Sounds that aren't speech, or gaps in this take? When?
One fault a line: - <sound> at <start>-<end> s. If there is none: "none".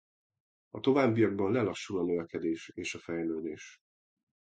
none